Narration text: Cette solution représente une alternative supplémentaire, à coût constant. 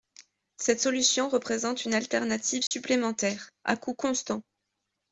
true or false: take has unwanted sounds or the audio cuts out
true